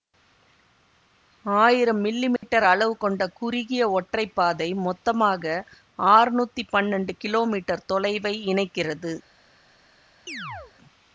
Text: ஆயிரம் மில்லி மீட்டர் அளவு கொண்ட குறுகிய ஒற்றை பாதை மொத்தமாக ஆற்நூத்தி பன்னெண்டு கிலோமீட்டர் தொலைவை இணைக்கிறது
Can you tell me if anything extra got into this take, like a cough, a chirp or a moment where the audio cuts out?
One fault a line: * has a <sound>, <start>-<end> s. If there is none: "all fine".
* has a dropout, 2.4-2.4 s
* has a chirp, 10.3-10.7 s